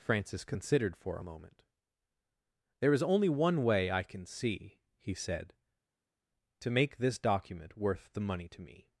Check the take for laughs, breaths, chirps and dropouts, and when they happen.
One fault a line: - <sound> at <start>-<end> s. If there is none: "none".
none